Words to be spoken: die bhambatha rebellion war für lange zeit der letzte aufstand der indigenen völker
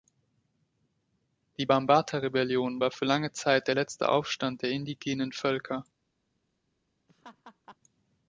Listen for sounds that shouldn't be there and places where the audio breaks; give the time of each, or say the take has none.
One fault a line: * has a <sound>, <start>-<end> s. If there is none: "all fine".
* has a laugh, 7.1-7.8 s